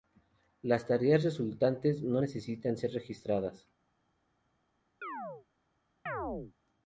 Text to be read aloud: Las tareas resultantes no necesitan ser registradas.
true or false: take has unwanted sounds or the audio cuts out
true